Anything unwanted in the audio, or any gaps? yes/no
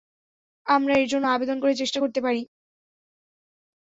no